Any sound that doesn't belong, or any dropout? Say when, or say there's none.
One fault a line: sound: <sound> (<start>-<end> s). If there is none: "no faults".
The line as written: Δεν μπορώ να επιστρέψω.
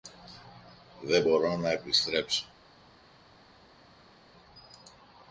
no faults